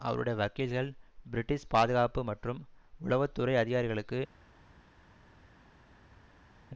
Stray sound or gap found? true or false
false